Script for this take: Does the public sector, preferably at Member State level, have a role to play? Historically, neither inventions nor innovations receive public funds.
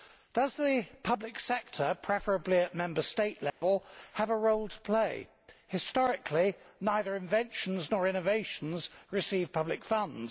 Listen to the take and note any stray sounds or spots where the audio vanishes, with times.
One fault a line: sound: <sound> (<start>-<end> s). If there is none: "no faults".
sound: dropout (3.5-3.6 s)